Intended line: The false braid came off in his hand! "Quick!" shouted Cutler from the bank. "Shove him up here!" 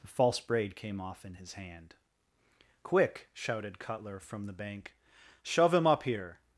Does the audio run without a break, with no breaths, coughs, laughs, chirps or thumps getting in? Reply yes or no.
yes